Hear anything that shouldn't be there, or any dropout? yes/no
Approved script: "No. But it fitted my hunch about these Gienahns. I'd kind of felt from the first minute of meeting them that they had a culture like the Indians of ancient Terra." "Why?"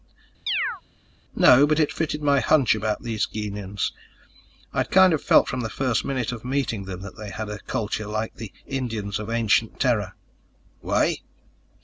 yes